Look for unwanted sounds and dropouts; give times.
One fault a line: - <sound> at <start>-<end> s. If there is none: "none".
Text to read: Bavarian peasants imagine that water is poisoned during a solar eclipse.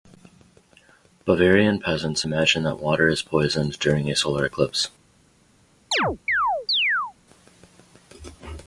- chirp at 5.9-7.1 s